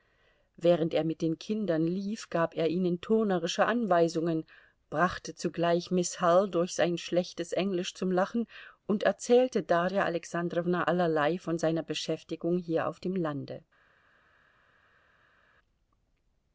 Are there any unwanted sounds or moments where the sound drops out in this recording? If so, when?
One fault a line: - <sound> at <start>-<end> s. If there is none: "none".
none